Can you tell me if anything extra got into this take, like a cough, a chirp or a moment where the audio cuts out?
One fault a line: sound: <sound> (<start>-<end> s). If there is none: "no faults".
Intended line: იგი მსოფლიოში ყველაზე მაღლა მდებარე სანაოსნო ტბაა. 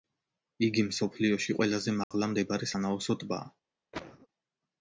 sound: dropout (2.0-2.1 s)
sound: cough (3.9-4.3 s)